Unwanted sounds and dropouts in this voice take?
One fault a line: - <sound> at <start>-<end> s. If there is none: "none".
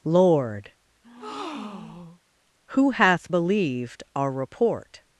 - breath at 1.0-2.2 s